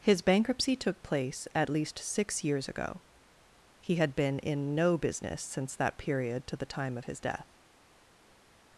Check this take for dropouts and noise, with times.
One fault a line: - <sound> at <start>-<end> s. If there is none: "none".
none